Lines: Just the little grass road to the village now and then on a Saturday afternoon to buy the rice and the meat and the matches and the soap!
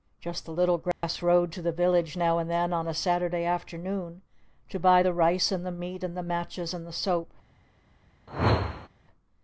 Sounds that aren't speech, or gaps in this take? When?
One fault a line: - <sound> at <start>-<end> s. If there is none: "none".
- dropout at 0.9-1.0 s
- whoosh at 8.3-8.9 s